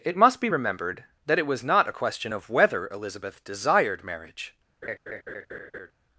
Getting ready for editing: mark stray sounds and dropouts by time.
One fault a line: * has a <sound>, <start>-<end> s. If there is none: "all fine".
* has a laugh, 4.8-5.9 s